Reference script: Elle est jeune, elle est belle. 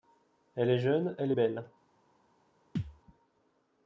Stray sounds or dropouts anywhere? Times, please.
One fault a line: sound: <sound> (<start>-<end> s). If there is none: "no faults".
sound: thud (2.8-3.0 s)